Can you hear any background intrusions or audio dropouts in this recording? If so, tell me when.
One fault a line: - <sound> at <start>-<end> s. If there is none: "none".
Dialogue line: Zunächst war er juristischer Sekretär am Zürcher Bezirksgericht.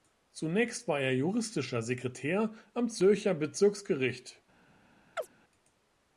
- chirp at 5.2-5.3 s